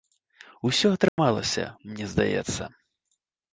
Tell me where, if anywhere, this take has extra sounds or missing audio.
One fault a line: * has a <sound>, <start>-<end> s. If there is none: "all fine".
* has a dropout, 1.1-1.2 s